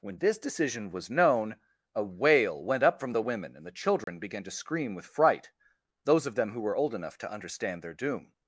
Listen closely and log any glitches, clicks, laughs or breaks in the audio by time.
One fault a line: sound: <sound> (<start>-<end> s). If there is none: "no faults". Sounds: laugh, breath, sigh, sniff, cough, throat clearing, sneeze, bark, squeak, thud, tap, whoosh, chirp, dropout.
sound: dropout (4.0-4.1 s)